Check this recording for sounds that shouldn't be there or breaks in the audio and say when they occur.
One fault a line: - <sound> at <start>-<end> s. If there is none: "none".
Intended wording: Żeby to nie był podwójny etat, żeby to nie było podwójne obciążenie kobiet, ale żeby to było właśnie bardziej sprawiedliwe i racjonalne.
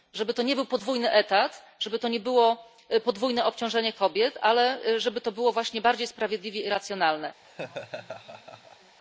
- laugh at 7.4-9.0 s